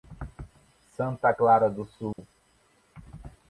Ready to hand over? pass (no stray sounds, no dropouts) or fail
fail